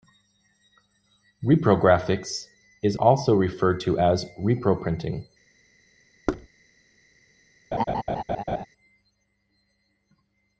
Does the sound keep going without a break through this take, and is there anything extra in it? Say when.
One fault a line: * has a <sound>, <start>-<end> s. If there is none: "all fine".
* has a thud, 6.3-6.5 s
* has a laugh, 7.7-8.7 s